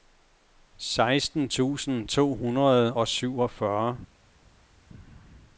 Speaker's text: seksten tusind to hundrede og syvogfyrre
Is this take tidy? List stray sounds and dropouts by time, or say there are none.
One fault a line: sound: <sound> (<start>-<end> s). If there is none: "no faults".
no faults